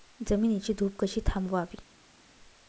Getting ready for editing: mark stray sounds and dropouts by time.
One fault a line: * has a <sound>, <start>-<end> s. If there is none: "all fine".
all fine